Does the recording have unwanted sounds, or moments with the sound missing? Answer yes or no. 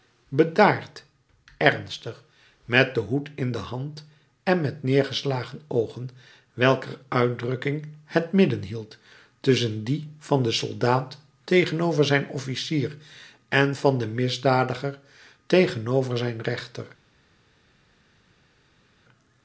no